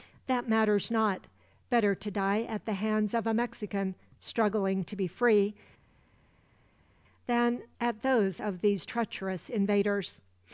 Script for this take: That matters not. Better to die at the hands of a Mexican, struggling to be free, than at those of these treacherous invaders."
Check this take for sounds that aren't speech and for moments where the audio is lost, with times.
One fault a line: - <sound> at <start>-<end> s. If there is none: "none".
none